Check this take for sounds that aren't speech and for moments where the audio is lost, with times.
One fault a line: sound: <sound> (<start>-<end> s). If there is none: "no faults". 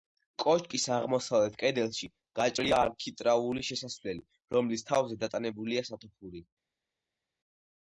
no faults